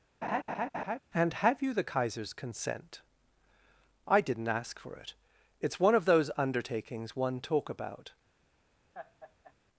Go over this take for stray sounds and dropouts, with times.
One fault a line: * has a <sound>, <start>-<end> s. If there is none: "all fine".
* has a laugh, 0.2-1.0 s
* has a laugh, 8.9-9.5 s